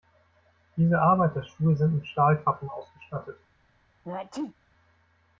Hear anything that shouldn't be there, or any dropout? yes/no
yes